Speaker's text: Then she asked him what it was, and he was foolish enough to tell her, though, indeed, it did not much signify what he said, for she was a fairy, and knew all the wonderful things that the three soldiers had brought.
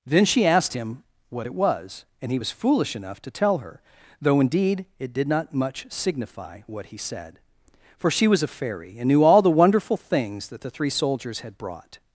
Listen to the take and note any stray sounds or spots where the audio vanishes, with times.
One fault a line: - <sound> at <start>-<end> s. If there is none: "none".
none